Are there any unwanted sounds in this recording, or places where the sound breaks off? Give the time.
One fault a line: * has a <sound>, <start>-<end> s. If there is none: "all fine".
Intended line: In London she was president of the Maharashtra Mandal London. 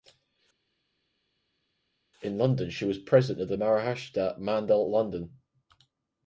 all fine